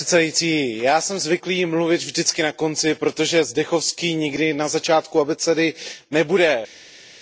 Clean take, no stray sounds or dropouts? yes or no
yes